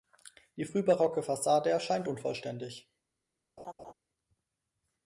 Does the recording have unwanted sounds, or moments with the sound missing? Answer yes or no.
yes